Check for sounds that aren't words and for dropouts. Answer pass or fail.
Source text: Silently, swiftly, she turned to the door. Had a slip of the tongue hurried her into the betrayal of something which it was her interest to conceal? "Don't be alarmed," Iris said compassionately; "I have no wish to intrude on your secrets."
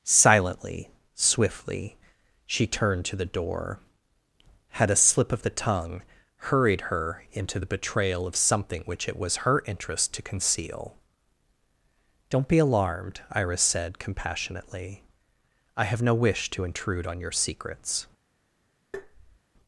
fail